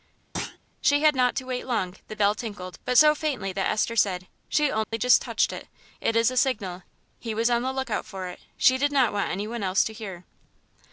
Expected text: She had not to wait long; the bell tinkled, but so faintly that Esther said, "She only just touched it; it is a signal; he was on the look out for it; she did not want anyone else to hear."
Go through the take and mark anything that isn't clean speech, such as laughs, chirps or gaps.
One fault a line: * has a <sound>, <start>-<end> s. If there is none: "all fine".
* has a thud, 0.3-0.6 s
* has a dropout, 4.8-4.9 s